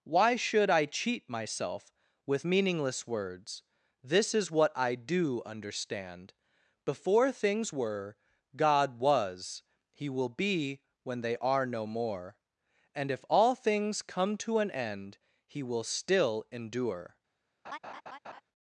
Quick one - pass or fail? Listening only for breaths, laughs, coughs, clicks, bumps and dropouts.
fail